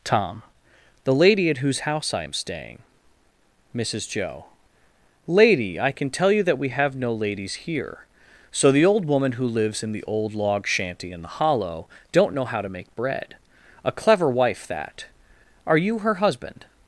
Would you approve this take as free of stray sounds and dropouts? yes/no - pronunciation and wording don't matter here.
yes